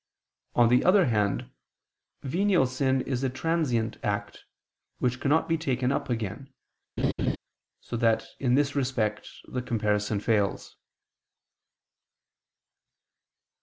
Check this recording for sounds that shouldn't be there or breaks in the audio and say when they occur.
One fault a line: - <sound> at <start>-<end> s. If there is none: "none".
- laugh at 7.0-7.4 s